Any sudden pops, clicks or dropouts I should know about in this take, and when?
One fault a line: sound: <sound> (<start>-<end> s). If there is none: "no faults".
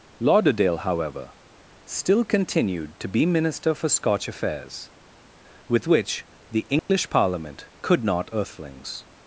sound: dropout (6.8-6.9 s)